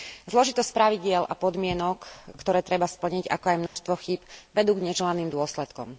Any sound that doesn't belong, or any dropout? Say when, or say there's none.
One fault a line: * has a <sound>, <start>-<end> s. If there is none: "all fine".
* has a dropout, 3.7-3.8 s